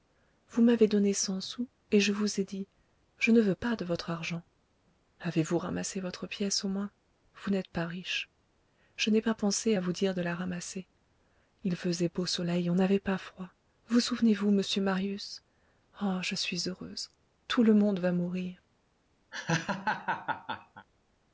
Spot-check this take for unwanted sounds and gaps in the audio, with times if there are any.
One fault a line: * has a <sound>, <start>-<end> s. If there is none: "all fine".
* has a laugh, 19.3-20.9 s